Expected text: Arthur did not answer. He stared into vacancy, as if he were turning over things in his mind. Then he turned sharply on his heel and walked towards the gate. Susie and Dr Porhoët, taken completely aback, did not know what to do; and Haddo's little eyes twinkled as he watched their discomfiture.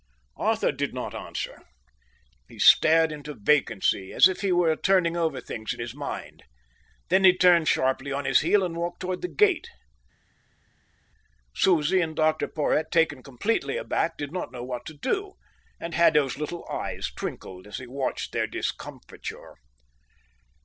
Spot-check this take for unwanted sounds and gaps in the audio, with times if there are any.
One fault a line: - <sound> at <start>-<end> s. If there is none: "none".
none